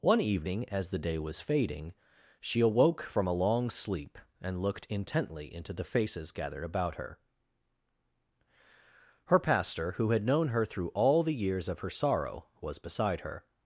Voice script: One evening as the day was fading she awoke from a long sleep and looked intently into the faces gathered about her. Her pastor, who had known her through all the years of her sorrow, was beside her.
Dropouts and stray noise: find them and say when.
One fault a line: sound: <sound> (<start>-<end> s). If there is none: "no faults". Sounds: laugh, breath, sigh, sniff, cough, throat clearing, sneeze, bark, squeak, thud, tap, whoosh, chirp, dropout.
no faults